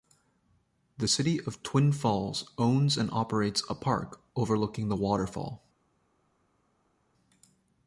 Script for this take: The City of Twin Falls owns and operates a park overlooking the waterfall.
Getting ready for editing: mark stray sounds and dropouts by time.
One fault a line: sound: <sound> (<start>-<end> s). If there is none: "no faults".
no faults